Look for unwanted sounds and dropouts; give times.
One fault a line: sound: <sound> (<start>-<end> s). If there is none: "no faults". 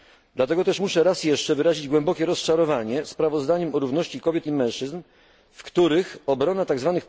no faults